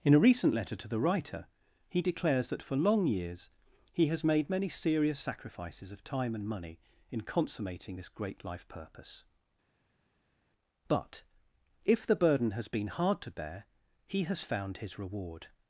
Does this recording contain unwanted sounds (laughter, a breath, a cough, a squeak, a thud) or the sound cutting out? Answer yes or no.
no